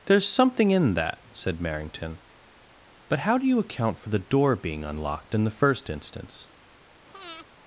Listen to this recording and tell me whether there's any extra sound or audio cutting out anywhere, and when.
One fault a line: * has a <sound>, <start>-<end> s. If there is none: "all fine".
* has a breath, 7.1-7.5 s